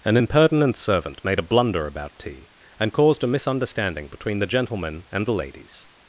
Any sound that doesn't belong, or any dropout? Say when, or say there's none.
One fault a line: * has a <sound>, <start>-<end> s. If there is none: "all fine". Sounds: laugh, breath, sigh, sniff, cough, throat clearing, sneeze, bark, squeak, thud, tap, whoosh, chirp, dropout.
all fine